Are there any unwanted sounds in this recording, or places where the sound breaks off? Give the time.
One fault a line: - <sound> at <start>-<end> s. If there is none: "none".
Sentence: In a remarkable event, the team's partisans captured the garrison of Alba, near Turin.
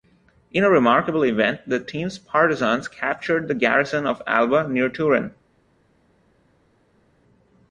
none